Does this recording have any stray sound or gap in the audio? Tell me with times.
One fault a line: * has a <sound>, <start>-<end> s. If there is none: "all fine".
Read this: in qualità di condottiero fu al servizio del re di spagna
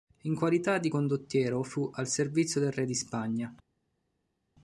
all fine